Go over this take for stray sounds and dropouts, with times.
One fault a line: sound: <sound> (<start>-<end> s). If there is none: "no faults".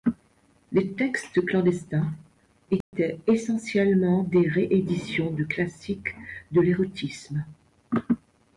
sound: dropout (2.8-2.9 s)